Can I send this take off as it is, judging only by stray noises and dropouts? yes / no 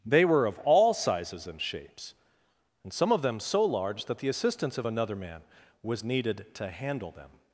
yes